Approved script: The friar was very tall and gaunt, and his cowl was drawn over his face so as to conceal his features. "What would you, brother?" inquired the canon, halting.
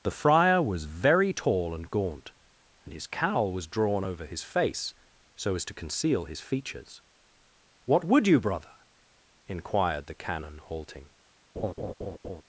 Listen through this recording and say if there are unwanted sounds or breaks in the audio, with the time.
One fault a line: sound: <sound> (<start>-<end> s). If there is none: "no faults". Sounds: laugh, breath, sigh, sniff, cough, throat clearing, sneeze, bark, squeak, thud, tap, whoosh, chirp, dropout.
sound: laugh (11.6-12.4 s)